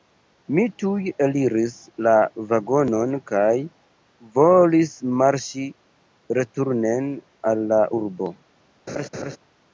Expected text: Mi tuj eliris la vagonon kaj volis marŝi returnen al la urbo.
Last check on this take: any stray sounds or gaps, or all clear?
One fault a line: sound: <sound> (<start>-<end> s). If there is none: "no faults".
sound: laugh (8.9-9.4 s)